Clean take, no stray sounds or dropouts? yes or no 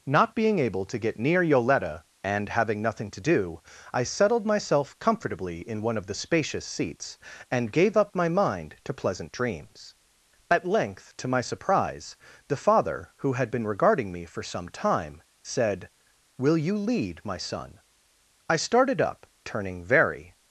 yes